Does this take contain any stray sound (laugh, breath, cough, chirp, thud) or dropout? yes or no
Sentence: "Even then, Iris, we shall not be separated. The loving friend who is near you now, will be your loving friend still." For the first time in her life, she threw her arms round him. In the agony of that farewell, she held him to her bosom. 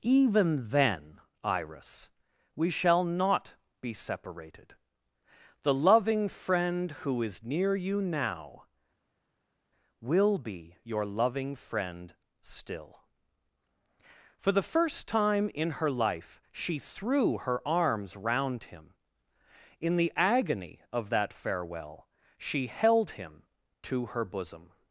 no